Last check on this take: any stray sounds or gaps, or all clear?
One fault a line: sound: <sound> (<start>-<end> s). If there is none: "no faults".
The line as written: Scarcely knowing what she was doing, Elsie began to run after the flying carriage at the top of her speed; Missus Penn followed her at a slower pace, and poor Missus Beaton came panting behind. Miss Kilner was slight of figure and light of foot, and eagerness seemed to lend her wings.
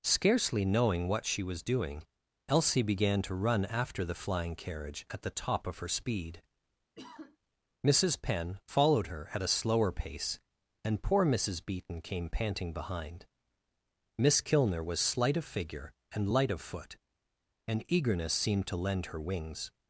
sound: sigh (7.0-7.4 s)